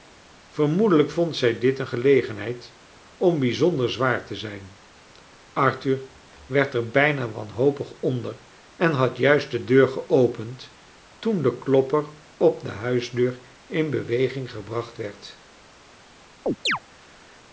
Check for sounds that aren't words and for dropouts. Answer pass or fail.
fail